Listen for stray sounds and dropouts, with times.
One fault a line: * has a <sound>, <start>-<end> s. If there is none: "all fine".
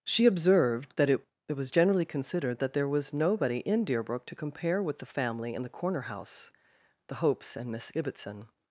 all fine